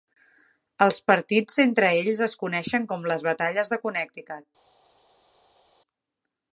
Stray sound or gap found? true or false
false